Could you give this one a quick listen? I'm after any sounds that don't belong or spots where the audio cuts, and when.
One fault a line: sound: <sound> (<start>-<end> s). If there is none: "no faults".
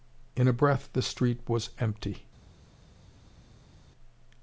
no faults